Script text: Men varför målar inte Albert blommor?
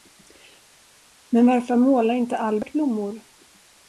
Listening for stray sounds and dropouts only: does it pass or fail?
pass